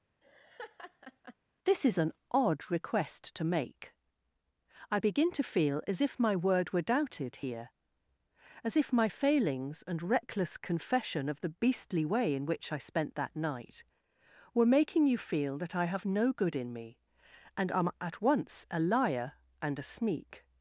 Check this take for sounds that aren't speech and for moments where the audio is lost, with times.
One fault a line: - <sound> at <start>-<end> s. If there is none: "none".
- laugh at 0.2-1.4 s